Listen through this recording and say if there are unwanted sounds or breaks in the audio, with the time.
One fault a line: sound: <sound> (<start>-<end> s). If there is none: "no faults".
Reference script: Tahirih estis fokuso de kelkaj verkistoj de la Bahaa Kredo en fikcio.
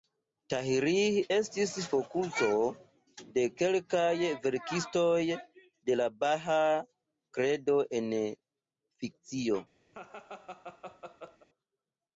sound: laugh (9.9-11.5 s)